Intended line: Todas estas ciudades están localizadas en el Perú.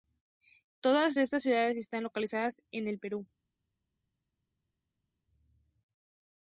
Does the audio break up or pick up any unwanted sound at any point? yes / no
no